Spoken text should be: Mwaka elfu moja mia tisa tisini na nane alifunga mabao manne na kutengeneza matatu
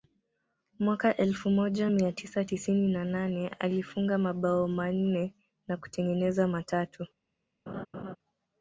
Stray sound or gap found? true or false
true